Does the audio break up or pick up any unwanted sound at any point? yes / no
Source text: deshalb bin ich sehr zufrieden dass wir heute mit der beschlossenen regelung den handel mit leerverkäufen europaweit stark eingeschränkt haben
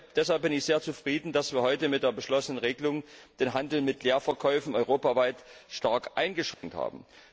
yes